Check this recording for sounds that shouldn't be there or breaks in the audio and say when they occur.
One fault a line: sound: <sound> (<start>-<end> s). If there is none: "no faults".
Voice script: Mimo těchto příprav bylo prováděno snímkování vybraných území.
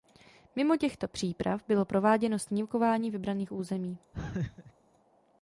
sound: laugh (4.1-4.7 s)